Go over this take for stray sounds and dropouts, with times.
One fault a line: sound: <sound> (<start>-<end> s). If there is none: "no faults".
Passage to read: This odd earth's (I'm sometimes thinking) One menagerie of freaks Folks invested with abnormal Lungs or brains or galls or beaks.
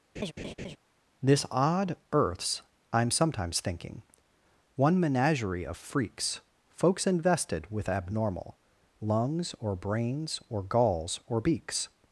sound: laugh (0.2-0.8 s)